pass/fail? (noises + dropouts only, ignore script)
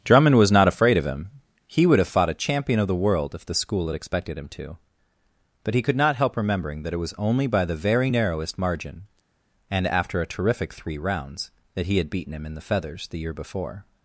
pass